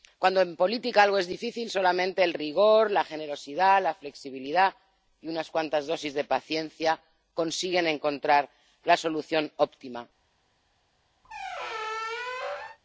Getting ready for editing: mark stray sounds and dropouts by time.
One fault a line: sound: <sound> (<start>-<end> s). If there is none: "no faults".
sound: squeak (11.2-12.8 s)